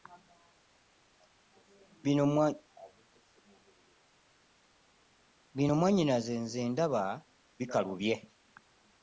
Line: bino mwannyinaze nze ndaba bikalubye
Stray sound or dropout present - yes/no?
no